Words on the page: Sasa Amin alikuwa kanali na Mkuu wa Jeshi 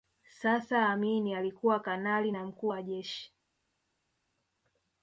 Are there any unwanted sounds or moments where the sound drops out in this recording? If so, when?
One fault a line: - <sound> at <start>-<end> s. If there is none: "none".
none